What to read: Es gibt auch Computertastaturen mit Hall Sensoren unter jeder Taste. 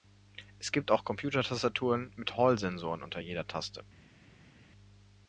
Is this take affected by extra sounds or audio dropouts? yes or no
no